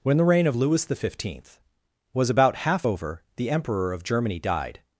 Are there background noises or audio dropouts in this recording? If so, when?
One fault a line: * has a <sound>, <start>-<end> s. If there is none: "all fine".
all fine